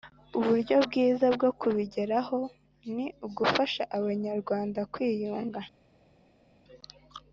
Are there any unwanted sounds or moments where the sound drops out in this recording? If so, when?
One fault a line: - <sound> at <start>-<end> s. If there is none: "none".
none